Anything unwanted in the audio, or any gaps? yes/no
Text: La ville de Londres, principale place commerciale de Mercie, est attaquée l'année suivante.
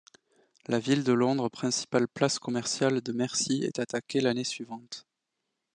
no